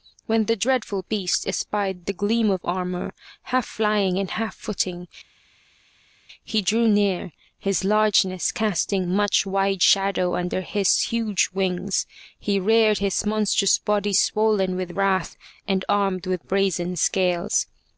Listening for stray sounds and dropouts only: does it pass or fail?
pass